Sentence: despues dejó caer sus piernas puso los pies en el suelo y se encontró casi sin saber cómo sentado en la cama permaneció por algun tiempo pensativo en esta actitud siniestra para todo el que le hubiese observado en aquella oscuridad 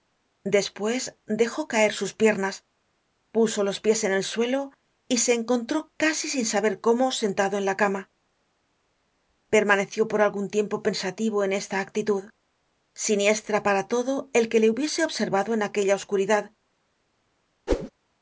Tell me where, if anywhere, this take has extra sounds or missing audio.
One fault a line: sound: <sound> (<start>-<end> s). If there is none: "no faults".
sound: whoosh (17.7-17.9 s)